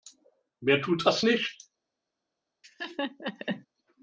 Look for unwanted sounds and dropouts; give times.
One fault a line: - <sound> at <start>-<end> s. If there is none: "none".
- laugh at 2.6-3.7 s